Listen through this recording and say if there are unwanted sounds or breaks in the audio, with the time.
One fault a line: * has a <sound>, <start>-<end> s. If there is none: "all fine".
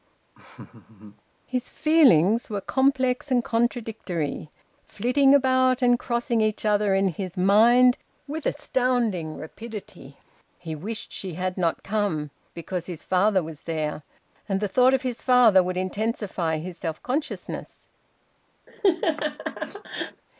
* has a laugh, 0.3-1.2 s
* has a laugh, 18.7-20.2 s